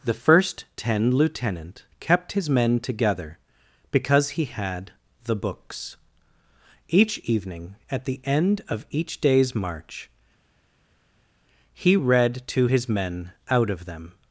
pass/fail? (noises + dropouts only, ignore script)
pass